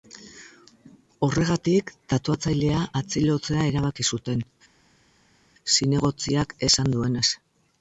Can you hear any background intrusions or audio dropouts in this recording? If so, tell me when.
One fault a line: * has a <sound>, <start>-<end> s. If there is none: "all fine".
all fine